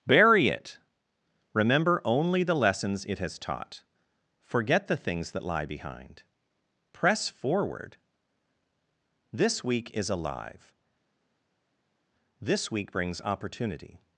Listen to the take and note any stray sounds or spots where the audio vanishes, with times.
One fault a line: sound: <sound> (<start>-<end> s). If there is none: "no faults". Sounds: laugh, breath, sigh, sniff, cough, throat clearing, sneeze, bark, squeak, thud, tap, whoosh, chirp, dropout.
no faults